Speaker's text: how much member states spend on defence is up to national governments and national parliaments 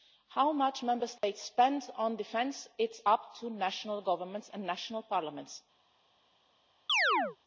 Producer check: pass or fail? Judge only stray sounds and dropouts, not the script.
fail